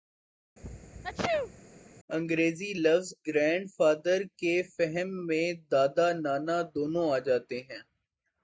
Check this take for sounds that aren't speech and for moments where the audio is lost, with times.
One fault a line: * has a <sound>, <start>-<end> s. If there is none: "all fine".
* has a sneeze, 0.6-1.6 s